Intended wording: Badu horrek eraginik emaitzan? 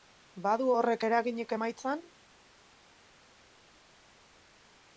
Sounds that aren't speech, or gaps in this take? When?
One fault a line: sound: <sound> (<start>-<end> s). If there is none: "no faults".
no faults